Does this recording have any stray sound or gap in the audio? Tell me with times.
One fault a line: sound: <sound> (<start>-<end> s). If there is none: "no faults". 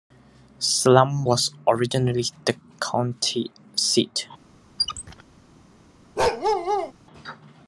sound: squeak (4.8-5.2 s)
sound: bark (6.2-6.9 s)